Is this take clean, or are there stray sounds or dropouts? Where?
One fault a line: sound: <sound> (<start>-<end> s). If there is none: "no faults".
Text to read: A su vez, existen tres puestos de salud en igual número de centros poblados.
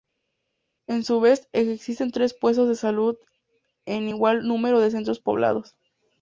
no faults